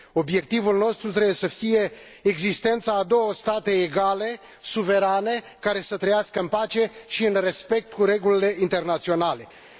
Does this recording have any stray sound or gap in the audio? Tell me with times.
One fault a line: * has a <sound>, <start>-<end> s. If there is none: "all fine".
all fine